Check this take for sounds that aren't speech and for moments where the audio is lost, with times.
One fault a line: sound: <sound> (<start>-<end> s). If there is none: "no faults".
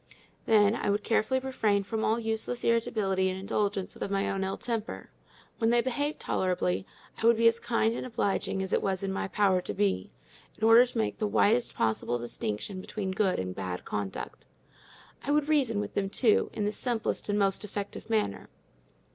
no faults